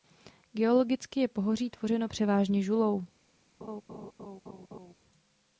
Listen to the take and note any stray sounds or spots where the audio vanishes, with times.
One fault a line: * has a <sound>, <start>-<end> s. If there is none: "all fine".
* has a laugh, 3.6-4.9 s